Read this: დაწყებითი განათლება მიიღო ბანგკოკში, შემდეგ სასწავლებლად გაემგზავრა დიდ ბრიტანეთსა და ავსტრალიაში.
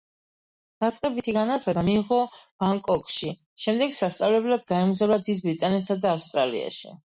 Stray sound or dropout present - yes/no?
no